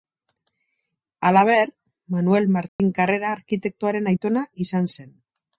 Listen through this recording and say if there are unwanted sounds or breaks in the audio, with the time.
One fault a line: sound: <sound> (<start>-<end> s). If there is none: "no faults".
sound: dropout (2.7-2.8 s)